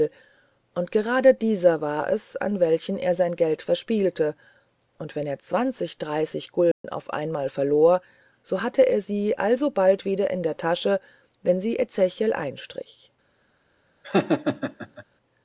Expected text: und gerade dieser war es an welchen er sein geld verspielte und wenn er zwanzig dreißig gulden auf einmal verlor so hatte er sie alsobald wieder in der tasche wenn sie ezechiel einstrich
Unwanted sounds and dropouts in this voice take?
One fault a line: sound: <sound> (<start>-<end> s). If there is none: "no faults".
sound: dropout (6.7-6.8 s)
sound: laugh (14.0-15.0 s)